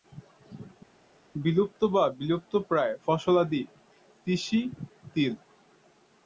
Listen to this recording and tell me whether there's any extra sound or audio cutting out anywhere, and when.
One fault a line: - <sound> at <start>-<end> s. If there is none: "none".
none